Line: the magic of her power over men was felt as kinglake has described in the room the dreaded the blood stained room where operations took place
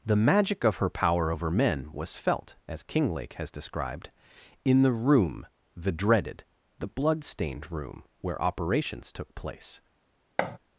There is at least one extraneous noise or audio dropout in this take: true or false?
true